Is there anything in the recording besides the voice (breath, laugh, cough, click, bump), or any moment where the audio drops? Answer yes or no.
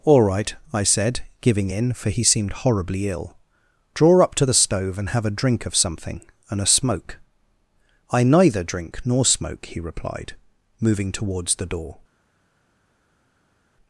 no